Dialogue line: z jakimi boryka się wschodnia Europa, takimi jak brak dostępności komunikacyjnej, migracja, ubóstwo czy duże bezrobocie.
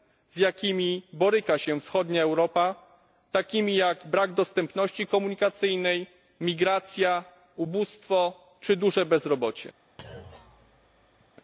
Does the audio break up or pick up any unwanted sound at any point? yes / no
yes